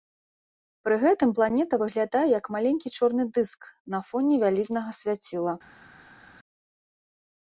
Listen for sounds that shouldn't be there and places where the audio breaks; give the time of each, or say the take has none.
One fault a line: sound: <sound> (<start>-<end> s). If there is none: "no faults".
no faults